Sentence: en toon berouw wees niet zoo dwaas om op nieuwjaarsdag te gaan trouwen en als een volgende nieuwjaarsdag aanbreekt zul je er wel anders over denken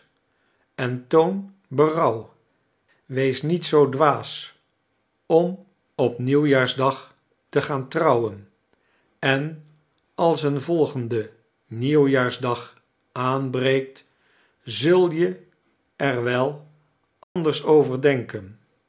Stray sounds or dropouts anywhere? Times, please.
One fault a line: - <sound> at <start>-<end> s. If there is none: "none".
- dropout at 17.2-17.4 s